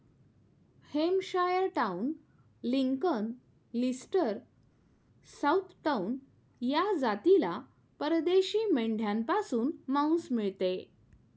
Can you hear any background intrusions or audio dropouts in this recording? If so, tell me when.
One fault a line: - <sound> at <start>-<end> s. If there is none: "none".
none